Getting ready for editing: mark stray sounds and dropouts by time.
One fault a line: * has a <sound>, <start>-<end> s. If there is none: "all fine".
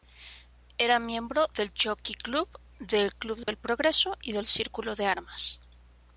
* has a dropout, 3.4-3.5 s